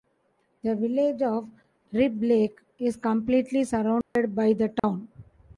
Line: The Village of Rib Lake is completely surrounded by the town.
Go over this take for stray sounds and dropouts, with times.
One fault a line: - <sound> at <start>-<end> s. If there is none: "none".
- dropout at 4.0-4.2 s
- dropout at 4.8-4.8 s